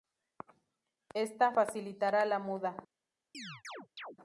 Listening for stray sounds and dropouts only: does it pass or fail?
fail